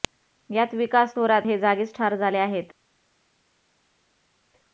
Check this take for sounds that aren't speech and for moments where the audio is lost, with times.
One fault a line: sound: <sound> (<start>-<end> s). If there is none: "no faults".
no faults